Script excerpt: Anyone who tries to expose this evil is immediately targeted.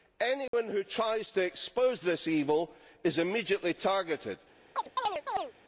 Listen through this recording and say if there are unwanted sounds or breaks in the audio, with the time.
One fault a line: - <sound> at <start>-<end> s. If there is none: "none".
- dropout at 0.5-0.5 s
- chirp at 4.8-5.5 s